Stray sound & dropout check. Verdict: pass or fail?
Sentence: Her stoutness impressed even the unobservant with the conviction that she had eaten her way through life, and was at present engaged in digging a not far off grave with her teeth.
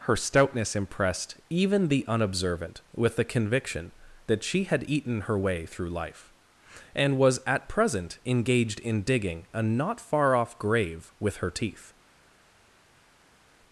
pass